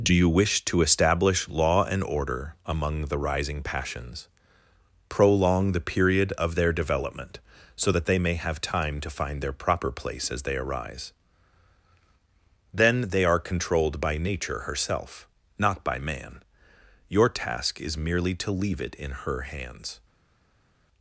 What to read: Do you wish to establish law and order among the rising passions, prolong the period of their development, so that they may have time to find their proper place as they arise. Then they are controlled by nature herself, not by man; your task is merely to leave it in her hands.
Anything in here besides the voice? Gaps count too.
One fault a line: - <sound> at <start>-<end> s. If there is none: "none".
none